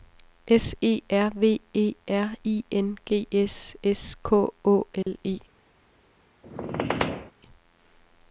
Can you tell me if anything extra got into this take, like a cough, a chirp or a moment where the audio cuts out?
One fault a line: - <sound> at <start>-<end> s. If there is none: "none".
- dropout at 5.0-5.1 s
- squeak at 6.4-7.3 s